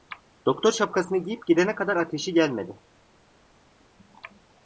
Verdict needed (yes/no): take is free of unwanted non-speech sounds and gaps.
yes